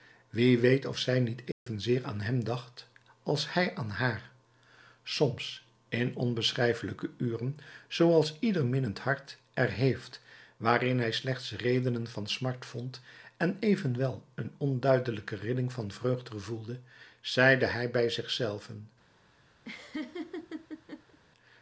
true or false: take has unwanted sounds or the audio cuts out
true